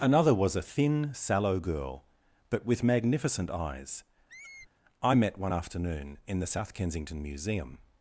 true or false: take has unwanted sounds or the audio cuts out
true